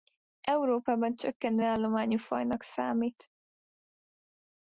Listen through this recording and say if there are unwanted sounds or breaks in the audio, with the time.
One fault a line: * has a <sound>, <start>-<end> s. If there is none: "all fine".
all fine